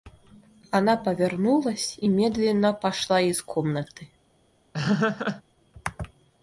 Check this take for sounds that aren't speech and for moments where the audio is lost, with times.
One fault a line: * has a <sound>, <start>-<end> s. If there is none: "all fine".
* has a laugh, 4.7-5.4 s